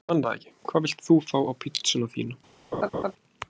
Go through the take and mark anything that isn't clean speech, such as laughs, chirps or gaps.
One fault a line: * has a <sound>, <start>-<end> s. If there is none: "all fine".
* has a laugh, 2.7-3.1 s